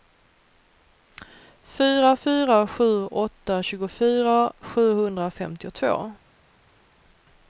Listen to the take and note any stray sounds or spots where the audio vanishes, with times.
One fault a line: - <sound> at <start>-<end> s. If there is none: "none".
none